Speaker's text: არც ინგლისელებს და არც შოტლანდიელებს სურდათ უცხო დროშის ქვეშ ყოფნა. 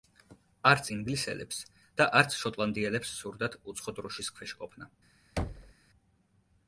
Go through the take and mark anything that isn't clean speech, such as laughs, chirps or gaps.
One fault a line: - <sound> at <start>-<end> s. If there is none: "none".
- thud at 5.4-5.7 s